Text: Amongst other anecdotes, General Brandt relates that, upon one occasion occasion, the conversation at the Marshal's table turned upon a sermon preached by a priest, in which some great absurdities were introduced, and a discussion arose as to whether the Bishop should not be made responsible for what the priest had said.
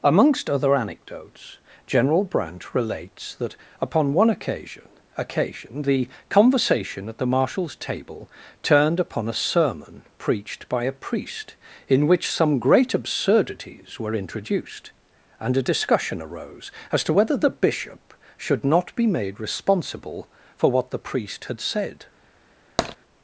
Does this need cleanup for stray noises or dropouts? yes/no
yes